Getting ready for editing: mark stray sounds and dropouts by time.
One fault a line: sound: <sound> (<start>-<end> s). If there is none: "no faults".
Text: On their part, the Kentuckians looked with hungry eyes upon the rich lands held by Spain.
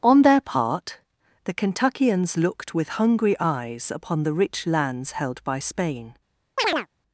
sound: chirp (6.6-6.9 s)